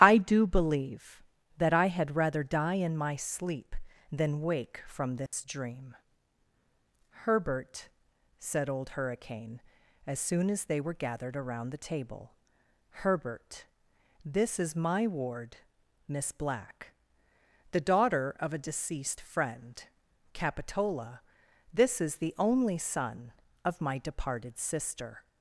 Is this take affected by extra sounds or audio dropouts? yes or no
yes